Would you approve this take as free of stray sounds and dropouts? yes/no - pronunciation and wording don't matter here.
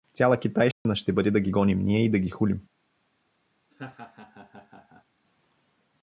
no